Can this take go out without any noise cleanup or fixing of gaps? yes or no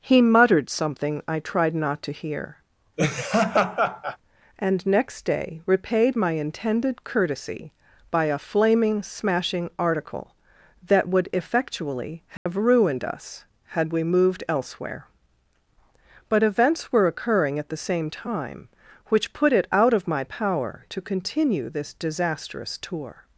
no